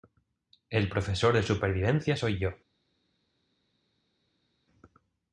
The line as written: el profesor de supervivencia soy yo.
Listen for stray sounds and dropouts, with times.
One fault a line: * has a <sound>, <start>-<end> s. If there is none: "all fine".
all fine